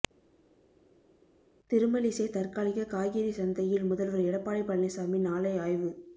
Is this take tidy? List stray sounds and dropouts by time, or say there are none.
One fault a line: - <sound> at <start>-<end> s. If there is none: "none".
none